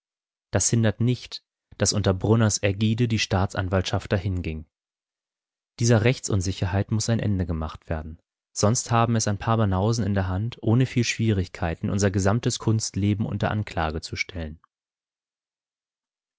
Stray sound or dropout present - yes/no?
no